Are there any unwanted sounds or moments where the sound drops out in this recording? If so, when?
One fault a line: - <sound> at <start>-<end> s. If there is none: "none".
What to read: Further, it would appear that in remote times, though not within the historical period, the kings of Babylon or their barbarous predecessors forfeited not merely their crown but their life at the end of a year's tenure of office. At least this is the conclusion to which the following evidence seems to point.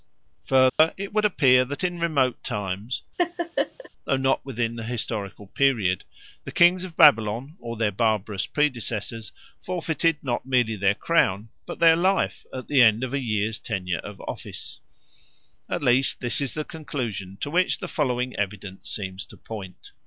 - dropout at 0.7-0.8 s
- laugh at 3.2-3.9 s